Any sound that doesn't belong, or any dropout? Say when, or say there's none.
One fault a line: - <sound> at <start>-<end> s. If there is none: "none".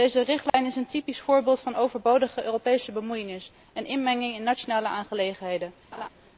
- dropout at 0.5-0.5 s
- laugh at 5.9-6.1 s